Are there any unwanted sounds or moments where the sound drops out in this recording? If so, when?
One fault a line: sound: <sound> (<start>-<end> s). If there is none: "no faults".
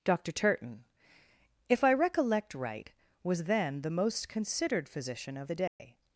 sound: dropout (5.7-5.8 s)